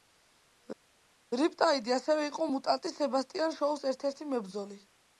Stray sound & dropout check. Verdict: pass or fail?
pass